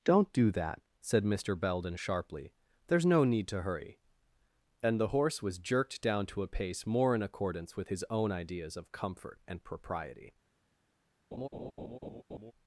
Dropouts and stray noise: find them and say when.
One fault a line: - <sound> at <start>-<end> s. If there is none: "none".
- laugh at 11.3-12.5 s